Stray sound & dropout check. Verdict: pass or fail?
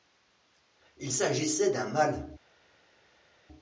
pass